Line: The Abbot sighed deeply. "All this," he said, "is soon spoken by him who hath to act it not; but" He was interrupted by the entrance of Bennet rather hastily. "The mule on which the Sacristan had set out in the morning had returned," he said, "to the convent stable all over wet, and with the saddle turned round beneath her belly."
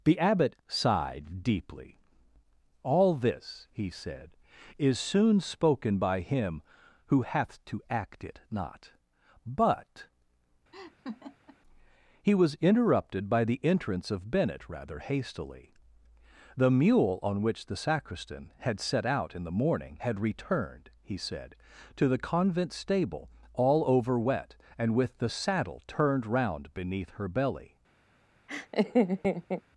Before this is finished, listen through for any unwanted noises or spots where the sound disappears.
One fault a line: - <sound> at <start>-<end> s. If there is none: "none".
- laugh at 10.7-11.6 s
- laugh at 28.5-29.6 s